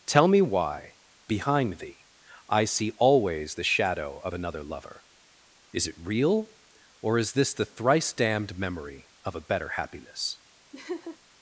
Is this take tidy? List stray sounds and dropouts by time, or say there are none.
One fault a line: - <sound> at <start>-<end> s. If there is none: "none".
- laugh at 10.7-11.2 s